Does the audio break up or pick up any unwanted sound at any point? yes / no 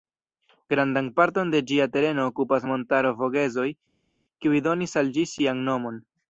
no